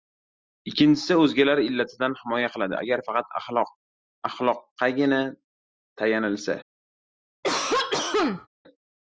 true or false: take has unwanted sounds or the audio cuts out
true